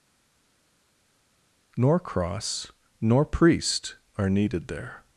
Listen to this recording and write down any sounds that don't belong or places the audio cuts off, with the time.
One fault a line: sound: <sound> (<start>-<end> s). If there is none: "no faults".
no faults